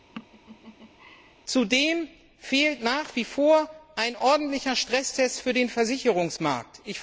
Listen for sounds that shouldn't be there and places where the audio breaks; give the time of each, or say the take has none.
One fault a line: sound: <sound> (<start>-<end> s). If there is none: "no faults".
sound: laugh (0.1-1.3 s)